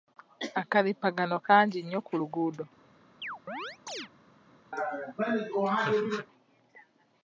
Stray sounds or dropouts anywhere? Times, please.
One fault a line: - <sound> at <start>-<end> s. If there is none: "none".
- chirp at 3.2-4.1 s
- laugh at 4.7-6.3 s